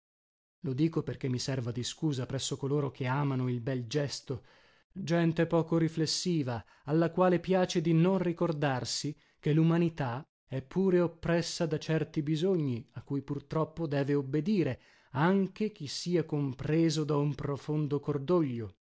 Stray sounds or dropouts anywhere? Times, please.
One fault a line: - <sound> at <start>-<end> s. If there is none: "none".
none